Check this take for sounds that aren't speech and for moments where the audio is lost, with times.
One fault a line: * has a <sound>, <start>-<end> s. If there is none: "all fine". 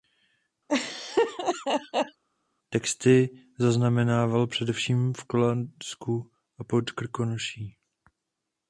* has a laugh, 0.7-2.2 s